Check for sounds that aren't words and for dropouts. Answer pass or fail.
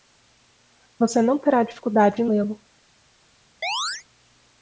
fail